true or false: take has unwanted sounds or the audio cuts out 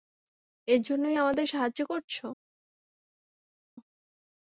false